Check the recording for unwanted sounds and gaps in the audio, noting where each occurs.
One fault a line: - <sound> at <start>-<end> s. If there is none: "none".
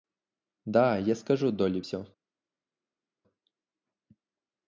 none